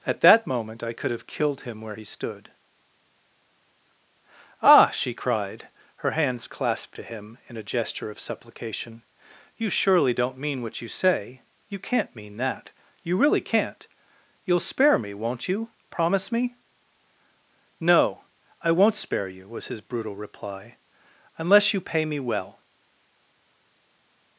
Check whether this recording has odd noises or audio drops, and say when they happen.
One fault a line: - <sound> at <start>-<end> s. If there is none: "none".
none